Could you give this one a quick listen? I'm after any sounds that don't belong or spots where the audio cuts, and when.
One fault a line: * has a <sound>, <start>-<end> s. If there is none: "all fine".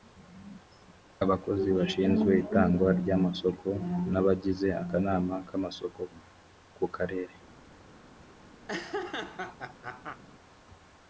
* has a laugh, 8.7-10.2 s